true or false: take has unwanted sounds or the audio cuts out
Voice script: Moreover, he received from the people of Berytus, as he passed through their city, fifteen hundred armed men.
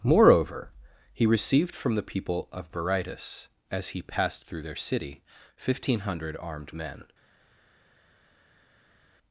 false